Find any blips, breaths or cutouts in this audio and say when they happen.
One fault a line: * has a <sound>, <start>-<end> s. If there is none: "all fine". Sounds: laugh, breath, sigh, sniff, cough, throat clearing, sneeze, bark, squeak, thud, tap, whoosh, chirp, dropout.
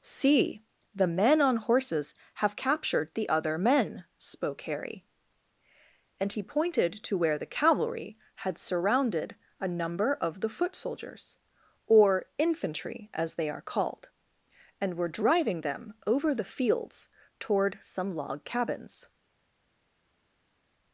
all fine